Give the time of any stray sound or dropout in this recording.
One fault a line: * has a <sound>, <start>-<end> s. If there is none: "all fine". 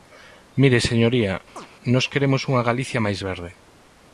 * has a chirp, 1.6-1.7 s